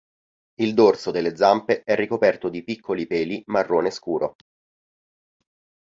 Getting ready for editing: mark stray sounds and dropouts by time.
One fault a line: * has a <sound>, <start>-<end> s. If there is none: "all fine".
all fine